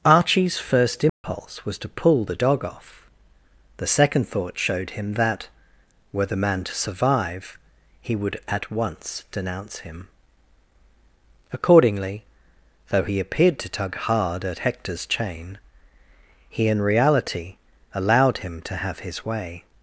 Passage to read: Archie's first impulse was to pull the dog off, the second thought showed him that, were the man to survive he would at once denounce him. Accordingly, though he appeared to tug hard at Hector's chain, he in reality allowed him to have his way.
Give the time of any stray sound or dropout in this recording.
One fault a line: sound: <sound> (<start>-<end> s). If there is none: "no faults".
sound: dropout (1.1-1.2 s)